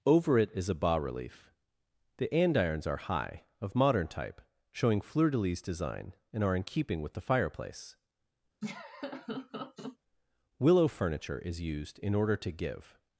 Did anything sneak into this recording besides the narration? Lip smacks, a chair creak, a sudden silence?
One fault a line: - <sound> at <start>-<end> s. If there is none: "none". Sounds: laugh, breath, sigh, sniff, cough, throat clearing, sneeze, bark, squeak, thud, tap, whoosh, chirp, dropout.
- laugh at 8.6-10.0 s